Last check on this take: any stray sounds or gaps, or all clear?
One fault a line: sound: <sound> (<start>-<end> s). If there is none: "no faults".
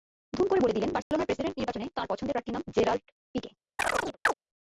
sound: dropout (1.0-1.1 s)
sound: chirp (3.8-4.3 s)